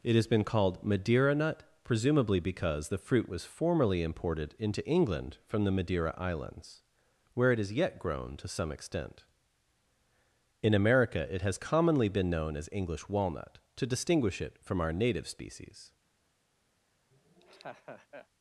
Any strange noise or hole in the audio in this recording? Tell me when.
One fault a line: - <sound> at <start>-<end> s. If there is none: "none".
- laugh at 17.1-18.3 s